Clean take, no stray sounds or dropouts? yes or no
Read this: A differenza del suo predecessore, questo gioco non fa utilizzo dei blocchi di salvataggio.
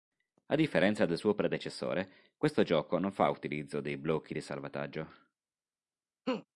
no